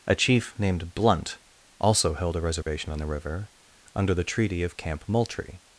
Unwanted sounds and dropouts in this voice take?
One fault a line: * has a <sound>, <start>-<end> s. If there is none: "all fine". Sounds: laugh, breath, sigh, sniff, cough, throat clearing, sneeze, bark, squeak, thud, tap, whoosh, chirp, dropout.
* has a dropout, 2.6-2.7 s